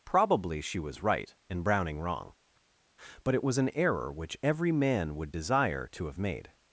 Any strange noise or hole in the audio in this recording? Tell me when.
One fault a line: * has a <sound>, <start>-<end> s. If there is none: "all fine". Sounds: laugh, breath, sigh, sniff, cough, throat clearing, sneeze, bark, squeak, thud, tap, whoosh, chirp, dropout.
all fine